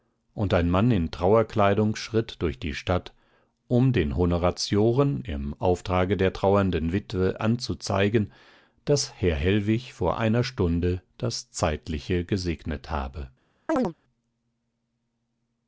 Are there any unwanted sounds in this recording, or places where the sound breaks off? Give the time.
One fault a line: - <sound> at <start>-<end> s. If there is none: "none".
- chirp at 13.7-13.9 s